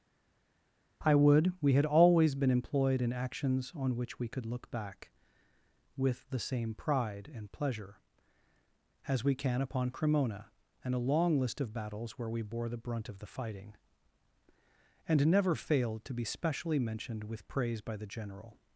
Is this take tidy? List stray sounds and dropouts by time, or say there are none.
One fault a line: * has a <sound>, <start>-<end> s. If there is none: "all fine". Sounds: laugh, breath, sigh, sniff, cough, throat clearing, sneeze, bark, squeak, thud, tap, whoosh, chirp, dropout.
all fine